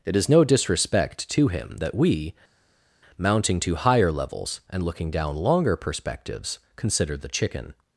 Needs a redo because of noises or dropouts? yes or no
no